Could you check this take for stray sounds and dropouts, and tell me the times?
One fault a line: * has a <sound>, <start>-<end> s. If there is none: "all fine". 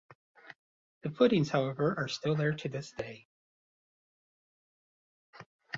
all fine